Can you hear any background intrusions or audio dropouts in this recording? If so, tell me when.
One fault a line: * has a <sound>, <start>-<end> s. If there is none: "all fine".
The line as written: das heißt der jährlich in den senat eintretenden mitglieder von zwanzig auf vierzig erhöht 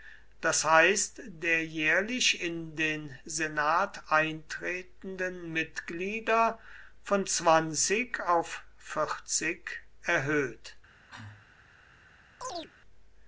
* has a cough, 10.9-11.5 s
* has a chirp, 12.4-12.7 s